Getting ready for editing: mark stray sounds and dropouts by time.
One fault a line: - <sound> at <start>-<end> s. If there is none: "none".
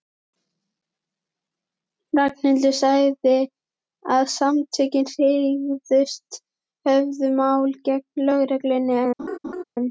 - laugh at 9.2-9.6 s